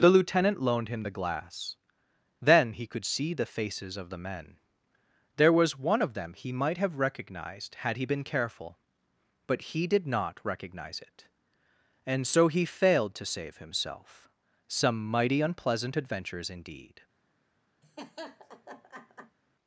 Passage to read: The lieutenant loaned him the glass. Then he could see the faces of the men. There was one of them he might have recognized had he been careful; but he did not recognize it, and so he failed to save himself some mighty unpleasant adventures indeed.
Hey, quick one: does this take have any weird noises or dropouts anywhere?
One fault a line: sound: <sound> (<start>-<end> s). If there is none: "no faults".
sound: laugh (17.8-19.4 s)